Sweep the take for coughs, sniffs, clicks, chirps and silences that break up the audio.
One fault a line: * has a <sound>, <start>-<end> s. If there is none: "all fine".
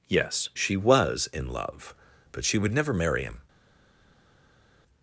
all fine